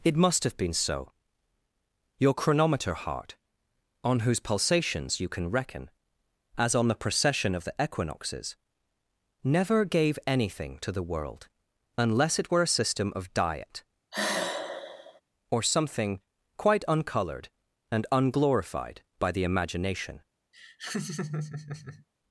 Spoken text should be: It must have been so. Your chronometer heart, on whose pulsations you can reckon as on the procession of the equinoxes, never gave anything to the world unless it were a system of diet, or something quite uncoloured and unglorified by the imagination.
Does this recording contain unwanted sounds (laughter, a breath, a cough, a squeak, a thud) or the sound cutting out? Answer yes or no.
yes